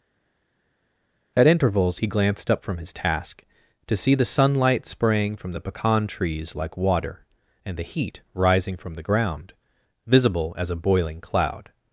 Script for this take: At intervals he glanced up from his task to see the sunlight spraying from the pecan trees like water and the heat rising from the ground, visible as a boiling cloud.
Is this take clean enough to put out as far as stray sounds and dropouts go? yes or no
yes